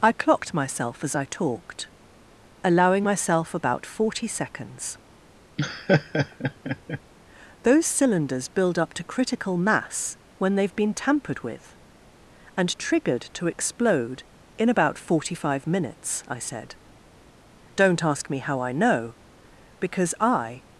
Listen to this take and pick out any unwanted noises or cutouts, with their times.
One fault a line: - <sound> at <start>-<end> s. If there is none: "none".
- laugh at 5.6-7.0 s